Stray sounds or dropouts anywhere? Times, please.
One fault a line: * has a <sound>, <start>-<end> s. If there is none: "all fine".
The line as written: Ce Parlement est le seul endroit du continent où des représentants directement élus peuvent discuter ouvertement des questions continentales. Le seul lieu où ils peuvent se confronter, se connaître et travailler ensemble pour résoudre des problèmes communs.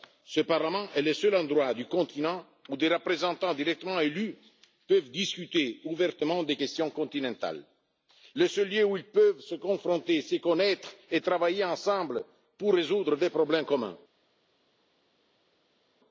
all fine